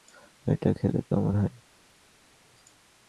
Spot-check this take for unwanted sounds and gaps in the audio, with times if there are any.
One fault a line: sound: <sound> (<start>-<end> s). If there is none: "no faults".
no faults